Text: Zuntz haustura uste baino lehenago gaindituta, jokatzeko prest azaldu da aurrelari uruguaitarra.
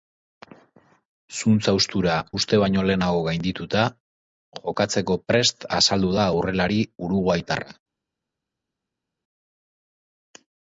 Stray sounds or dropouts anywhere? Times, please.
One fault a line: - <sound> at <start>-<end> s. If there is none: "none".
none